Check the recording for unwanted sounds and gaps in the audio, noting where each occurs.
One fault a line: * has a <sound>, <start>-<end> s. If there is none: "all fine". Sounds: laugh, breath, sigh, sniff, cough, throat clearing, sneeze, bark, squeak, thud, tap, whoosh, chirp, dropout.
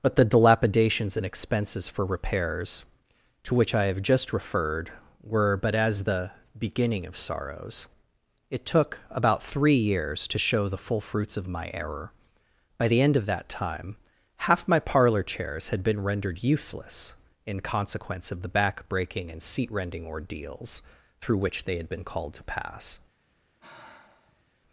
* has a sigh, 23.6-24.4 s